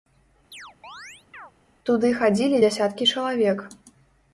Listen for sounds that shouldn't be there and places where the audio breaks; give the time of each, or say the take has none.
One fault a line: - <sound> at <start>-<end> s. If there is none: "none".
- chirp at 0.5-1.5 s